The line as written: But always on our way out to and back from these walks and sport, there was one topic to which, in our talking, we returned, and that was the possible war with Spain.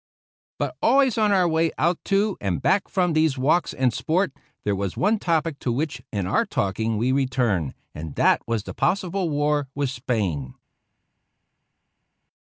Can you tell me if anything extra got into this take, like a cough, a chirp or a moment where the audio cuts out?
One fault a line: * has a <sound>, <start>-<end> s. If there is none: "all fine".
all fine